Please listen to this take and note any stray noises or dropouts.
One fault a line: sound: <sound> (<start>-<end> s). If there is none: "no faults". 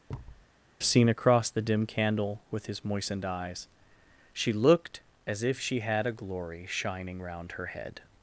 sound: thud (0.1-0.5 s)